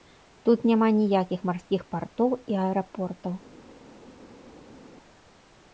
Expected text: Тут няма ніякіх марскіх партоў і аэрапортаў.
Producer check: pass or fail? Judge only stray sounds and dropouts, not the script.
pass